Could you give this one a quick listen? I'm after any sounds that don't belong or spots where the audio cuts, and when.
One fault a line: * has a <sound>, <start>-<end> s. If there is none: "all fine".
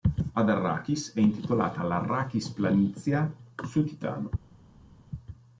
all fine